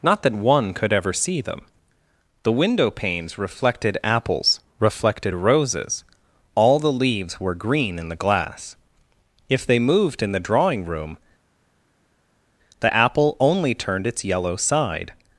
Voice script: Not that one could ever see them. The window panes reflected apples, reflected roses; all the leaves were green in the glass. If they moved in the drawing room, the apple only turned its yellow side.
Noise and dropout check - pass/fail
pass